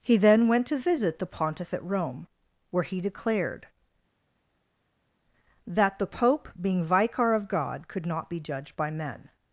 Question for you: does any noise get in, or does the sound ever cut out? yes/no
no